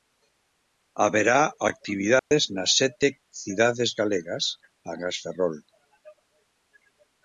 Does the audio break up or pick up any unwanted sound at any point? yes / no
yes